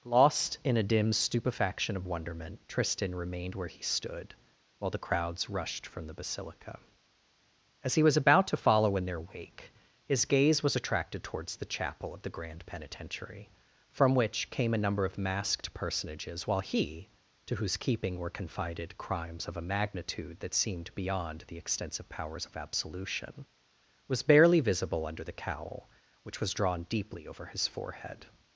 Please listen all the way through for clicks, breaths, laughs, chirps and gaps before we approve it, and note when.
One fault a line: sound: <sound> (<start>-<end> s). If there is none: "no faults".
no faults